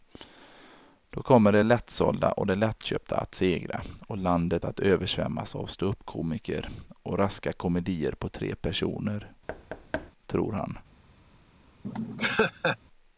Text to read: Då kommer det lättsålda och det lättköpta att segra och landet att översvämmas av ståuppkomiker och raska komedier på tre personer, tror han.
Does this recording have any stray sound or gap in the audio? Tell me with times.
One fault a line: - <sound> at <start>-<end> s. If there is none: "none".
- thud at 9.5-10.1 s
- laugh at 11.8-12.8 s